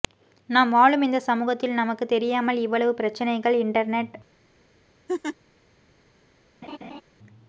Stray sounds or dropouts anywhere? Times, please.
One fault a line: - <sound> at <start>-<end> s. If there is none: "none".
- laugh at 5.1-5.4 s
- laugh at 6.6-7.0 s